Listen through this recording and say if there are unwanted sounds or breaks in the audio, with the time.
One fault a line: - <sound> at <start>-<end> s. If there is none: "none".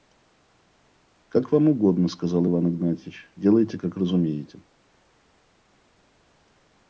none